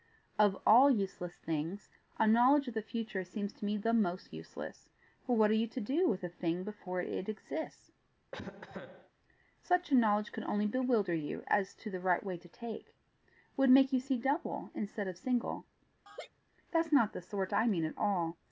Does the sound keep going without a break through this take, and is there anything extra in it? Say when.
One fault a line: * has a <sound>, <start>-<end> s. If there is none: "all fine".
* has a cough, 8.3-9.1 s
* has a laugh, 16.1-16.3 s